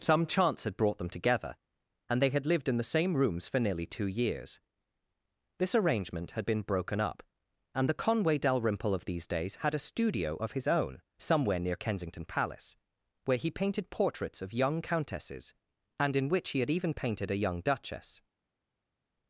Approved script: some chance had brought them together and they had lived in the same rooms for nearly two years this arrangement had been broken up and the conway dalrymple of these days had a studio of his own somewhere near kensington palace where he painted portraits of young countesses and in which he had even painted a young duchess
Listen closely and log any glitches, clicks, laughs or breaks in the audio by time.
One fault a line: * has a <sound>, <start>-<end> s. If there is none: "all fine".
all fine